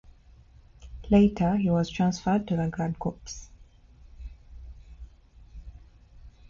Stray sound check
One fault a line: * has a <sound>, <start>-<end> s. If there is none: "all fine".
all fine